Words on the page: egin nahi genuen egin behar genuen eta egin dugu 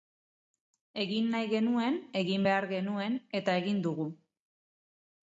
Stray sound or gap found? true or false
false